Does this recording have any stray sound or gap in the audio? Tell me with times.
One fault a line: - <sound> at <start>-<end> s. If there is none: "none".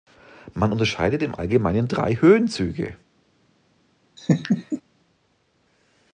- laugh at 4.2-4.8 s